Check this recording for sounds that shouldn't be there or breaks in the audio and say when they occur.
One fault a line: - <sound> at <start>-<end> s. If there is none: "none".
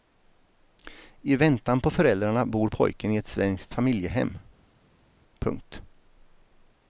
none